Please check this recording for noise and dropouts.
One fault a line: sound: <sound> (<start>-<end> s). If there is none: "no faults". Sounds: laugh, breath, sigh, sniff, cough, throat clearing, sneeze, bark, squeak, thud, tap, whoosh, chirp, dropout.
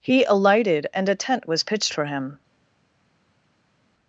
no faults